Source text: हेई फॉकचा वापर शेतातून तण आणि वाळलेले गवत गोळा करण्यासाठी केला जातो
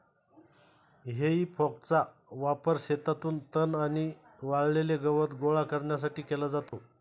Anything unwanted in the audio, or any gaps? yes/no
yes